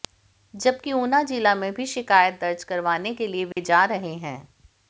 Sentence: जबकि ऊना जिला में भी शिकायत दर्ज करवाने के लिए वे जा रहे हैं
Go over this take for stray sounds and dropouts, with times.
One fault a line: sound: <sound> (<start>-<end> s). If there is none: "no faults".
sound: dropout (3.5-3.6 s)